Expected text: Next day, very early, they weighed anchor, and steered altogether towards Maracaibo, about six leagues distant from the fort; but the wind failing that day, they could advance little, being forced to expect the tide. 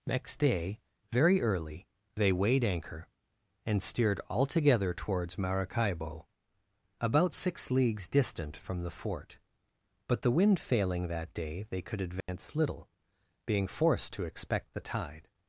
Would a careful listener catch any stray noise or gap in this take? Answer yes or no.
yes